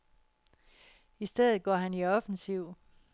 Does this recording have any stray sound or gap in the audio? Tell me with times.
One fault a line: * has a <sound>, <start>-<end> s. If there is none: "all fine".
all fine